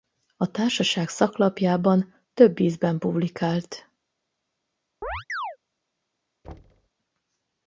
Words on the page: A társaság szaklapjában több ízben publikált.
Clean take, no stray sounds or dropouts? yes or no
no